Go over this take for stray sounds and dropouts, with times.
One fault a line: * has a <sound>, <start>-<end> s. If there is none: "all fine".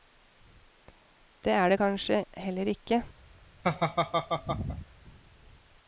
* has a laugh, 3.6-4.9 s